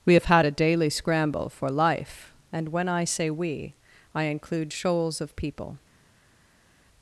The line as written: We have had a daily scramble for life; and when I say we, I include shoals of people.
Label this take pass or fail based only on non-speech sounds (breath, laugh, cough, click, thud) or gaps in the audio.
pass